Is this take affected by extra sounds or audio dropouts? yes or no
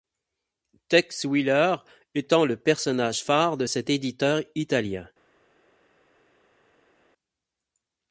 no